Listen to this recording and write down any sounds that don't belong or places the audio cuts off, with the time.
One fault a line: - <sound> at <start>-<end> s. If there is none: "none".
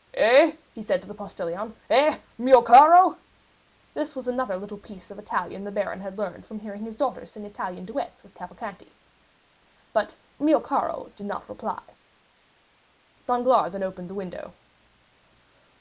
none